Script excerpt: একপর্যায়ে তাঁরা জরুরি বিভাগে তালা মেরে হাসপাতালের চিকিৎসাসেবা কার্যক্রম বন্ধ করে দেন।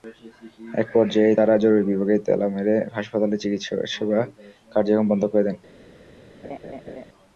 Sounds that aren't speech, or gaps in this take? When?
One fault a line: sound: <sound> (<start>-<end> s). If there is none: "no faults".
sound: laugh (6.4-7.1 s)